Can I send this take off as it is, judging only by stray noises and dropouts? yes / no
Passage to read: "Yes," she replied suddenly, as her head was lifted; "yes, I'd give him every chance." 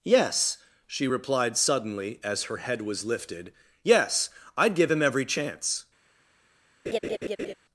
no